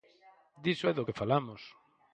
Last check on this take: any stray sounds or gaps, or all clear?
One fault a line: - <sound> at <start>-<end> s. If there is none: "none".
none